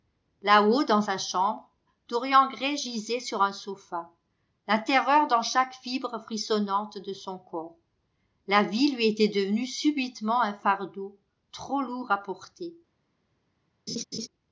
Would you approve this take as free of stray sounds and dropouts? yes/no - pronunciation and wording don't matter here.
no